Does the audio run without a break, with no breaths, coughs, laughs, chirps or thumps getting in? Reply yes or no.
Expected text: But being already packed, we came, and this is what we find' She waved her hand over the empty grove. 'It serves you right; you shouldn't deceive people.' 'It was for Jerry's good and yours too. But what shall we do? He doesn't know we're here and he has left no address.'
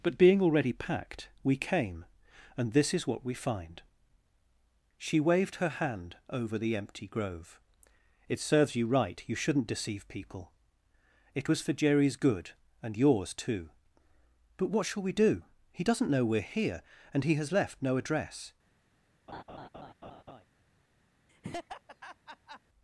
no